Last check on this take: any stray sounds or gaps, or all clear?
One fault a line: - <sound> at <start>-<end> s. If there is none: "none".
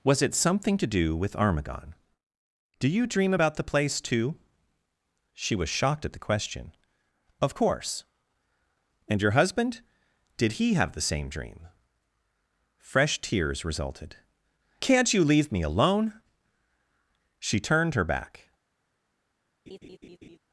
- laugh at 19.7-20.4 s